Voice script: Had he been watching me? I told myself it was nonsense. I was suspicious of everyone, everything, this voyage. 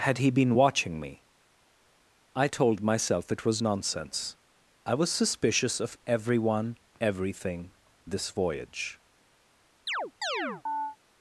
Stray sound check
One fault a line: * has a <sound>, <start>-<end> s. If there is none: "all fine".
* has a chirp, 9.9-11.0 s